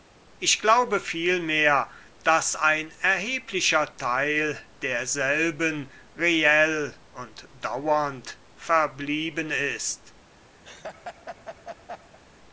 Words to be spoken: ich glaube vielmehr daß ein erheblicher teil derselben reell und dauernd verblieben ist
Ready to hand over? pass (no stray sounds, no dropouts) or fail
fail